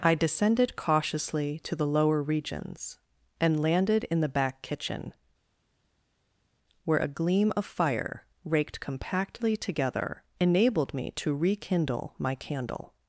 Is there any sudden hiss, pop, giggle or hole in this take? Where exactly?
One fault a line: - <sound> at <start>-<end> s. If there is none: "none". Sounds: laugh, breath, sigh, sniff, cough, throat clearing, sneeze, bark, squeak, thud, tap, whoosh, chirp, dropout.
none